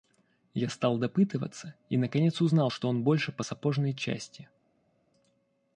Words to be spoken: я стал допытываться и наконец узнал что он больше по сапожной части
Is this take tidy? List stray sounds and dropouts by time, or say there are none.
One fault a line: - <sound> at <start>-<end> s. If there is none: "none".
none